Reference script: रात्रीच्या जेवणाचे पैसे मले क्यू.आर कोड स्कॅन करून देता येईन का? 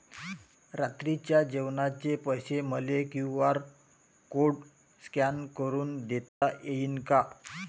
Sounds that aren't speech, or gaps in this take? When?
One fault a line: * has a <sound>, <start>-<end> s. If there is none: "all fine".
* has a dropout, 6.3-6.4 s